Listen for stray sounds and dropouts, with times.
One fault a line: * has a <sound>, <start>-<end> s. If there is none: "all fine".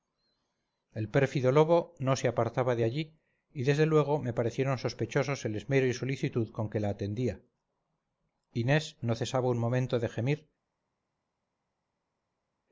all fine